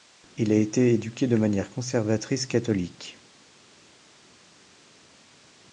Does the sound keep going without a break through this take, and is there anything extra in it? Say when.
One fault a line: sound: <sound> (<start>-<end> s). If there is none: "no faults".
no faults